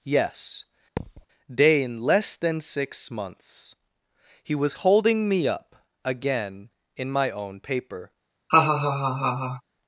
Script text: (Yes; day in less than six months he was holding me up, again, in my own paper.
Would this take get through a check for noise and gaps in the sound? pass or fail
fail